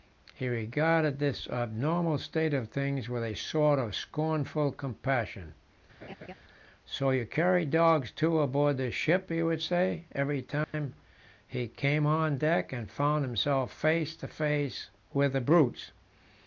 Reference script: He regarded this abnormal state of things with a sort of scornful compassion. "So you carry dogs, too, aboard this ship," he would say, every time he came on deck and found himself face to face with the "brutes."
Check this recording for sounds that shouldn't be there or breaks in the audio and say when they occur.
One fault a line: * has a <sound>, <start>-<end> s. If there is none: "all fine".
* has a laugh, 6.0-6.3 s
* has a dropout, 10.6-10.7 s